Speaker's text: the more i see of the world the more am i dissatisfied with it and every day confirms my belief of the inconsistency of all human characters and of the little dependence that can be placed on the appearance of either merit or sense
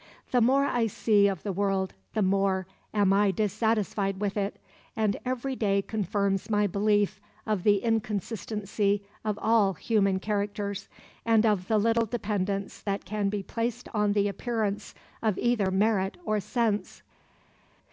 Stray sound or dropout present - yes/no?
no